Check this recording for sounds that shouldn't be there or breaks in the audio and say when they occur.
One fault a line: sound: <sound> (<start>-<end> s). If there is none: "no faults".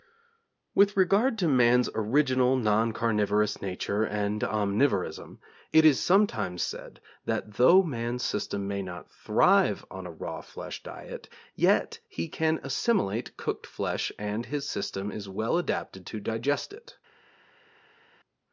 no faults